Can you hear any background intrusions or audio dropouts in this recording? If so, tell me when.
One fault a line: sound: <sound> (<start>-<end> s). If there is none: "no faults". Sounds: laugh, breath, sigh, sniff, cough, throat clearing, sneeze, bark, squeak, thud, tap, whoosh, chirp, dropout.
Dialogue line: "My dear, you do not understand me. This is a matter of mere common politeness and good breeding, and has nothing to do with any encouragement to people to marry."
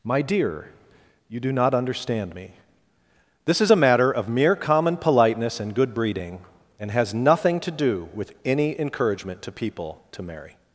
no faults